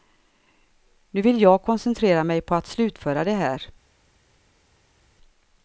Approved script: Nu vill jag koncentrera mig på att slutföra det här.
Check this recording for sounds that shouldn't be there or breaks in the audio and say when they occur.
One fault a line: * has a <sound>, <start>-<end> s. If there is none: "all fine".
all fine